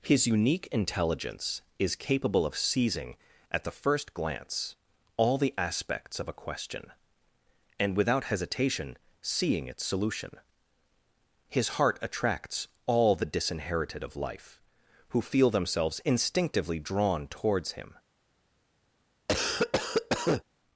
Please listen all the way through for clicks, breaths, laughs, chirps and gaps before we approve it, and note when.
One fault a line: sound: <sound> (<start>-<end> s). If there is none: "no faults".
sound: cough (19.3-20.4 s)